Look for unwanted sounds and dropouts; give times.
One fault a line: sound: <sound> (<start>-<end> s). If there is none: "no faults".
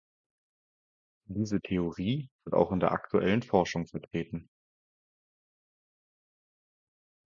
no faults